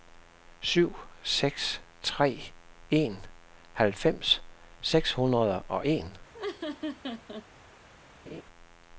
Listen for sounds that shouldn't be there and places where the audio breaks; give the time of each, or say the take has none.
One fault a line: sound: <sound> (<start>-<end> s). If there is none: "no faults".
sound: laugh (6.3-7.5 s)
sound: laugh (8.3-8.4 s)